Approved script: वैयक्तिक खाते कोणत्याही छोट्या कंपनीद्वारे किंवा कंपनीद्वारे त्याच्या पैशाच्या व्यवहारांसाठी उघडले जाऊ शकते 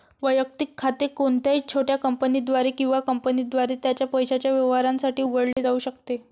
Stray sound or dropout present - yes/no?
yes